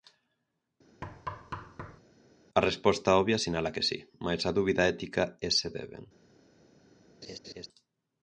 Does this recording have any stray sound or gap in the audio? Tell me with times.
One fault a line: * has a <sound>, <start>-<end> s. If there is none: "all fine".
* has a thud, 1.0-2.0 s
* has a laugh, 7.2-7.7 s